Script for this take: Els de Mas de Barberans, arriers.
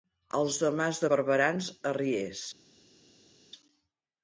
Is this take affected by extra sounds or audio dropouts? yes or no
no